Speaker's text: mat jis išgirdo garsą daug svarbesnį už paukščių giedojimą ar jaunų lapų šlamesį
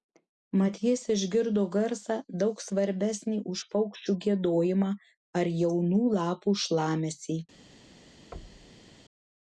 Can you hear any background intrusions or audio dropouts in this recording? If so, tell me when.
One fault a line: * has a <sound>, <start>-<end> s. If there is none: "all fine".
* has a thud, 8.3-8.9 s